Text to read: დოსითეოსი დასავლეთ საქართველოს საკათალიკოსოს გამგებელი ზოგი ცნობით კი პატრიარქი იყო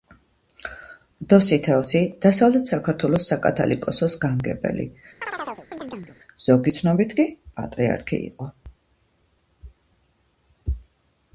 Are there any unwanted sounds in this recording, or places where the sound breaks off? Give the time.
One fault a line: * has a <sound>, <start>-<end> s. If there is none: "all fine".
* has a chirp, 5.2-6.2 s